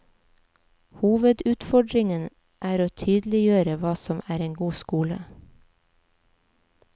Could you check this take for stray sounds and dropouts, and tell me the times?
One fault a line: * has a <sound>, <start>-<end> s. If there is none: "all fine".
all fine